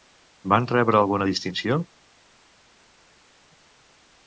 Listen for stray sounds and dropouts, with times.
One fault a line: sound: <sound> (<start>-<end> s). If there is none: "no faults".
no faults